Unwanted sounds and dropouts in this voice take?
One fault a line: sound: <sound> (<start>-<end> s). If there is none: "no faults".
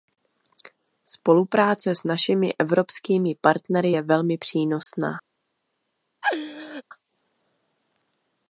sound: dropout (4.8-4.9 s)
sound: laugh (6.2-6.8 s)